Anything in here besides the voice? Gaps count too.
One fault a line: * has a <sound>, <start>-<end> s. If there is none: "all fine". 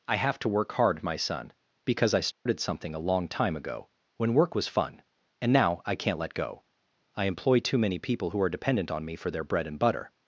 * has a dropout, 2.3-2.5 s